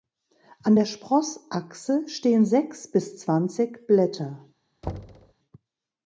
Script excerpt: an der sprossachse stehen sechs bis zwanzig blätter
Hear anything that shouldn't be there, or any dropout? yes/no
yes